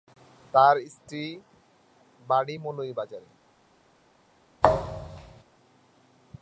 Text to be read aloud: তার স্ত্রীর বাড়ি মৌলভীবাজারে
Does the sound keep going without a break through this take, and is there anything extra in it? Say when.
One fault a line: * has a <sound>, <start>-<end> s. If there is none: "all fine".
* has a thud, 4.6-5.4 s